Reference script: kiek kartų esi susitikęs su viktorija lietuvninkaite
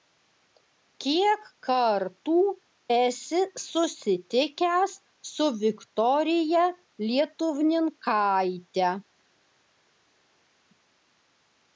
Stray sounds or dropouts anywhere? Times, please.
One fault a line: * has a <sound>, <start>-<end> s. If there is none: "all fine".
all fine